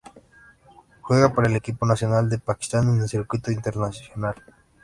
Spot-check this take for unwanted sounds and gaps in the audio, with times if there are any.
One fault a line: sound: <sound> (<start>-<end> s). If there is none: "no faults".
no faults